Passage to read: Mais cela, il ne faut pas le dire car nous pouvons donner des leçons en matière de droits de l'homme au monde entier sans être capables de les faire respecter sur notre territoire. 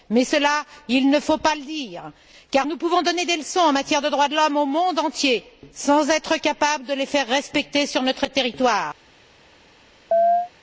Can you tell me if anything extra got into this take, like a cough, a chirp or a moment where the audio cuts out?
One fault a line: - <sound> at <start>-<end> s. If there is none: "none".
- chirp at 10.1-10.5 s